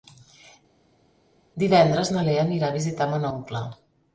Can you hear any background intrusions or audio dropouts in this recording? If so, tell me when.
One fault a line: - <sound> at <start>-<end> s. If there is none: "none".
none